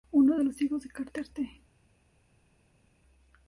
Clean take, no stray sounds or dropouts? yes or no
yes